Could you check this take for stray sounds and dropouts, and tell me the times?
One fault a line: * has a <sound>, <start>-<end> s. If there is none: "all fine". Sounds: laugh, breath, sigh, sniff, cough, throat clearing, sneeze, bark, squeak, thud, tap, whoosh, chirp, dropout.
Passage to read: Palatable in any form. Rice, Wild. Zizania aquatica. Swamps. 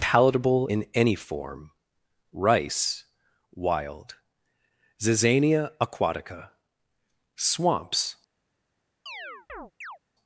* has a chirp, 9.1-10.0 s